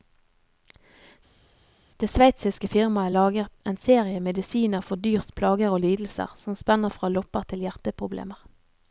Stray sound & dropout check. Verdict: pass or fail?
pass